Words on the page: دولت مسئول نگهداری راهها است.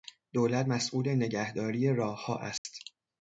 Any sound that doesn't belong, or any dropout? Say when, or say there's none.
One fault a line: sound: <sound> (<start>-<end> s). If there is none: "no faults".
sound: dropout (2.6-2.6 s)